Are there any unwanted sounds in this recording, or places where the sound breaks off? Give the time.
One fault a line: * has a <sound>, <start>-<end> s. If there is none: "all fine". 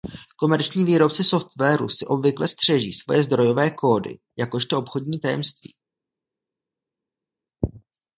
all fine